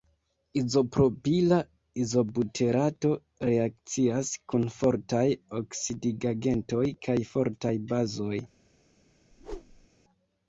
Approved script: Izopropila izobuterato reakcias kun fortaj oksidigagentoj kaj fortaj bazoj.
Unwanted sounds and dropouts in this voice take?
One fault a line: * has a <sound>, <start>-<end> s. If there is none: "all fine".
* has a whoosh, 9.3-9.9 s